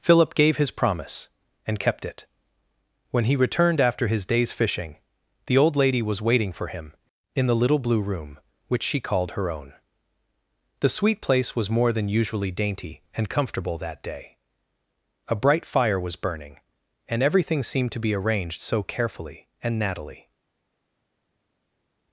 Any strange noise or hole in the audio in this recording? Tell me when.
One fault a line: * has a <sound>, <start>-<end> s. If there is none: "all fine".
all fine